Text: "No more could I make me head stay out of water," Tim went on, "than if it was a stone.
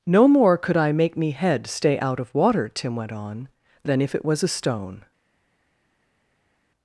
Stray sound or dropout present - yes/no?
no